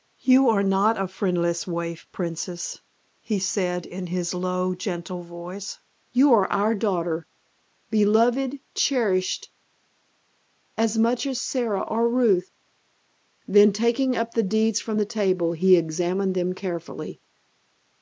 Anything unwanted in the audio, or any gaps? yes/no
no